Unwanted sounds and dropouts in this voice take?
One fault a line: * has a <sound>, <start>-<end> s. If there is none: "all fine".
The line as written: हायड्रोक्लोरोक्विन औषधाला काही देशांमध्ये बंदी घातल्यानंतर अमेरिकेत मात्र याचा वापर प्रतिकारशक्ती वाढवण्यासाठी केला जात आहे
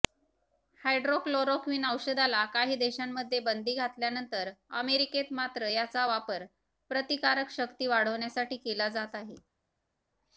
all fine